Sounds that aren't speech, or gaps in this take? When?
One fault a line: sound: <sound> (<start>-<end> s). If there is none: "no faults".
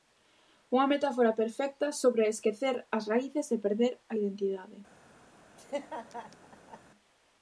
sound: laugh (5.6-6.8 s)